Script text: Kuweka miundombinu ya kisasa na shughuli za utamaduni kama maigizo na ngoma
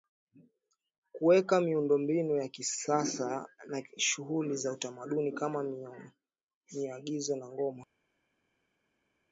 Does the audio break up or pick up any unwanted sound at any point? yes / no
no